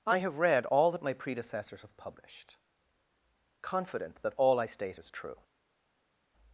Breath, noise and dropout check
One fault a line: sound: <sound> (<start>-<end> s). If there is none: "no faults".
no faults